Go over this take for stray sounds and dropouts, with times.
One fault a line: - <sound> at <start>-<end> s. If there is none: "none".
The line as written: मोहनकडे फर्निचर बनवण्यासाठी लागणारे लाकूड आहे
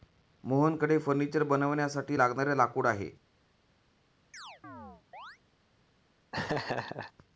- chirp at 4.3-5.4 s
- laugh at 6.3-7.1 s